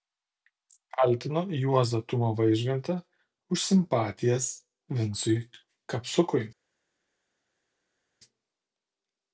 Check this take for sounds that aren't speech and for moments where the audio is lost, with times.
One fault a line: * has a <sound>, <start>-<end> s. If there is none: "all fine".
all fine